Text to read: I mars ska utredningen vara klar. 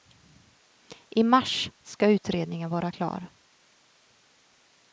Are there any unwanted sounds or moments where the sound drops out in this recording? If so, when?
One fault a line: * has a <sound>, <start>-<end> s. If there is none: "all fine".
all fine